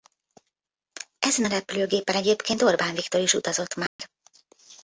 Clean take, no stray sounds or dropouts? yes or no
no